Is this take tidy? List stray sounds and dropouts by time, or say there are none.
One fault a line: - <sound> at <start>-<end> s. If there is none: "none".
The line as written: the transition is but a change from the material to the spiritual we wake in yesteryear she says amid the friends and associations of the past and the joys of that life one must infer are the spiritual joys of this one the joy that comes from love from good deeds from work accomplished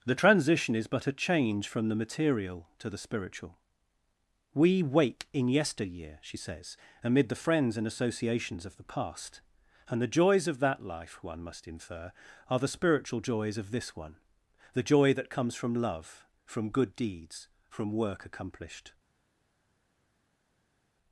none